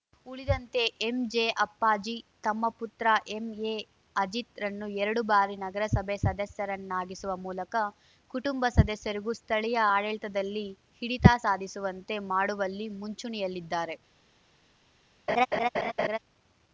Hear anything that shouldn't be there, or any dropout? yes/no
yes